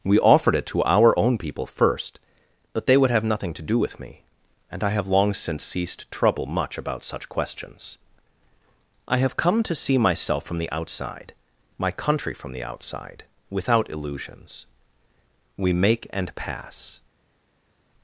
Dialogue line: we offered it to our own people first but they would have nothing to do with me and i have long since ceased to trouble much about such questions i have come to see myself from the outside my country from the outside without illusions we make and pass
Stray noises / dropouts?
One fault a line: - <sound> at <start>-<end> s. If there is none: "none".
none